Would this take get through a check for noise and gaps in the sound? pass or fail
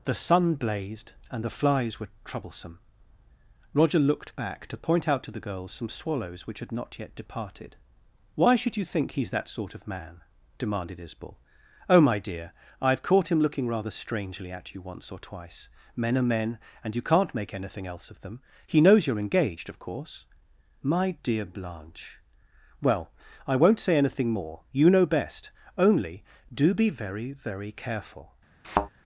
fail